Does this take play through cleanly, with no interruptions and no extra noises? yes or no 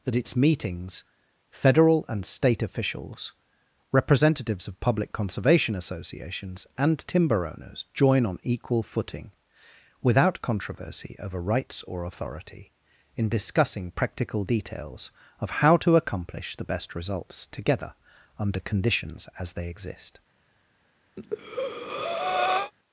no